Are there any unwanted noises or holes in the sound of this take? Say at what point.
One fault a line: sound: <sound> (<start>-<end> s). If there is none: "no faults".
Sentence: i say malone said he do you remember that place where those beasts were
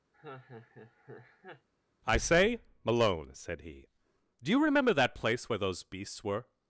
sound: laugh (0.1-1.7 s)